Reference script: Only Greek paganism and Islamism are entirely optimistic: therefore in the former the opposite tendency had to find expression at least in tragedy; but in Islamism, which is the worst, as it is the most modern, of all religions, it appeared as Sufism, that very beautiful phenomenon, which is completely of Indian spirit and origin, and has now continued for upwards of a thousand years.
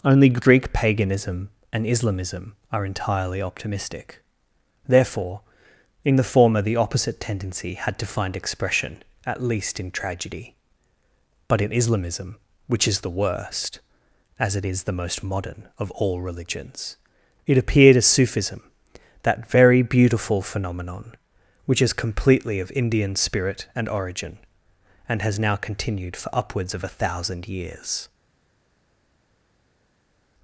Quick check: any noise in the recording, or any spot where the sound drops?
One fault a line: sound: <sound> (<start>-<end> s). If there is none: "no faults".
no faults